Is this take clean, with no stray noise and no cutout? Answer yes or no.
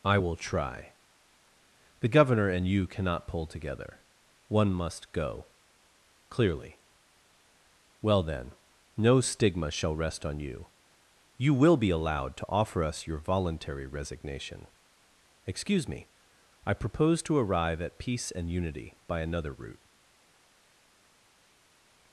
yes